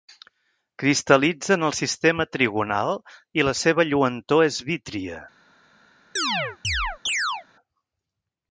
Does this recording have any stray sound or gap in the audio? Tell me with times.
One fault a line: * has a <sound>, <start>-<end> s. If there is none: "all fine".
* has a chirp, 6.2-7.5 s